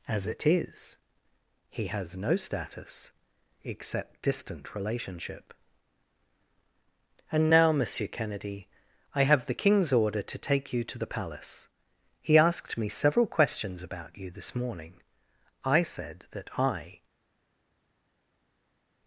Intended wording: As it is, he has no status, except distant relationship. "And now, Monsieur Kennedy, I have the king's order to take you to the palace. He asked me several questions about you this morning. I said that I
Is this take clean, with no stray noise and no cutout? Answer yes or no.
yes